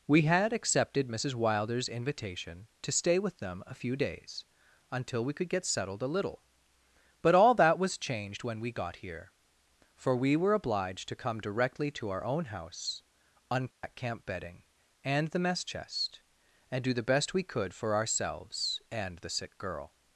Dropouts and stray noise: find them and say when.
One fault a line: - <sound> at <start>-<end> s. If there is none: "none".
- dropout at 13.7-13.8 s